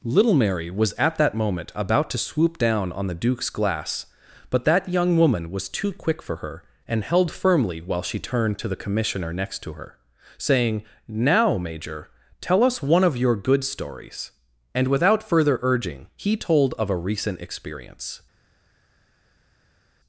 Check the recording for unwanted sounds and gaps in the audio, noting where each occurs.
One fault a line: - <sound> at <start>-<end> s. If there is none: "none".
none